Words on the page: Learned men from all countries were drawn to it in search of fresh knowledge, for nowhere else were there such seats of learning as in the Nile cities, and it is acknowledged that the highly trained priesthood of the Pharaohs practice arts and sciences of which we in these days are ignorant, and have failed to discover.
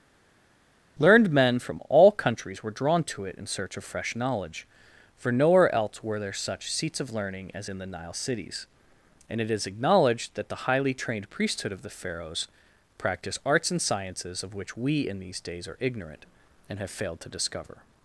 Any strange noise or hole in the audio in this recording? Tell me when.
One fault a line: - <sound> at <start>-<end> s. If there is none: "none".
none